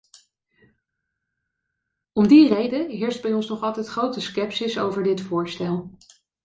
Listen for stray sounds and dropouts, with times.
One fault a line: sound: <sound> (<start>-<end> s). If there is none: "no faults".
no faults